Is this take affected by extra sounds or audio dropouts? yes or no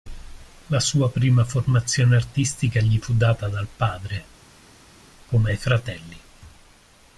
no